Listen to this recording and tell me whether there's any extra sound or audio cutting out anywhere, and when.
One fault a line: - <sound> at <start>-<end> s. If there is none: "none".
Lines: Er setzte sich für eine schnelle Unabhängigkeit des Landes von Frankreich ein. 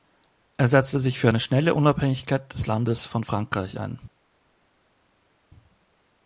none